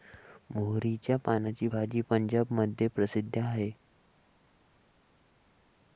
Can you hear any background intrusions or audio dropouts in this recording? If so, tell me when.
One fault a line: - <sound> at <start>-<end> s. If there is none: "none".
none